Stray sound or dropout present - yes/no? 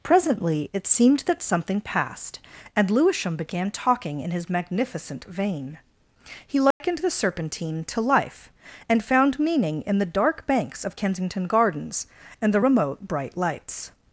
yes